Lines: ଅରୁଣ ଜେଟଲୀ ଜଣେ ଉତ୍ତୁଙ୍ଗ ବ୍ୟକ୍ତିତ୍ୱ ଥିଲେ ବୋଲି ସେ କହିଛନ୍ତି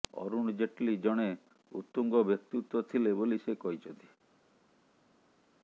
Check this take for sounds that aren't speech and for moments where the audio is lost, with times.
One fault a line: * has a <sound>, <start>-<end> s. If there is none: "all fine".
all fine